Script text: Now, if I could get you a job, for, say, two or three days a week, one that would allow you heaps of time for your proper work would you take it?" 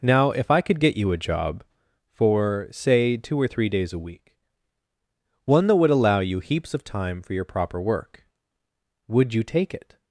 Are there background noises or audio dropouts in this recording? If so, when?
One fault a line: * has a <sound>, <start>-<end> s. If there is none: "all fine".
all fine